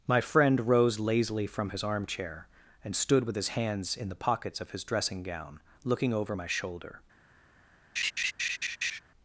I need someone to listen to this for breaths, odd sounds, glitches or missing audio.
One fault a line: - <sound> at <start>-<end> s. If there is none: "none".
- laugh at 8.0-9.0 s